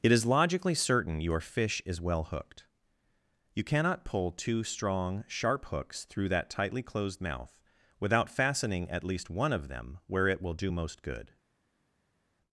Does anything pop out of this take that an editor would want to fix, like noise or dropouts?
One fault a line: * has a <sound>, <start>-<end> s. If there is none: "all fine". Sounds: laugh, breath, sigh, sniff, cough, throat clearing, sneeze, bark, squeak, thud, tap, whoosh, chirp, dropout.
all fine